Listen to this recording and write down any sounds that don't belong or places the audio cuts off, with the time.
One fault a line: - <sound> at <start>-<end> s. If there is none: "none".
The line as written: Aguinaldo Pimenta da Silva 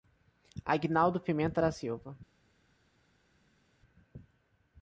none